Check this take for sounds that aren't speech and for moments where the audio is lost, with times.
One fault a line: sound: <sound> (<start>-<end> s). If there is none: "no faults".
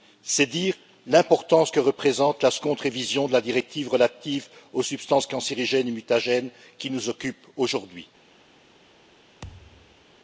sound: thud (9.4-10.0 s)